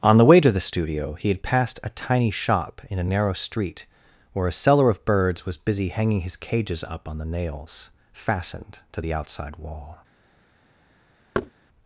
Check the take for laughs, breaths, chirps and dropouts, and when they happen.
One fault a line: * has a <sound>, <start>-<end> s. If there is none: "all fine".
* has a thud, 11.3-11.5 s